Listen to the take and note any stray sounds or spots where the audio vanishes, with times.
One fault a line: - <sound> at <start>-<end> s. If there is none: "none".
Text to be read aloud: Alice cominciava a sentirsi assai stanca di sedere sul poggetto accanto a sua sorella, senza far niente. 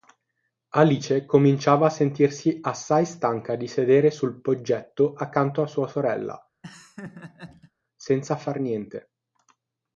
- laugh at 6.6-7.7 s